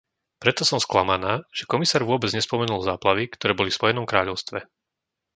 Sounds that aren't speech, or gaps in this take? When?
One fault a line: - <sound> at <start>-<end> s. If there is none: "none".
none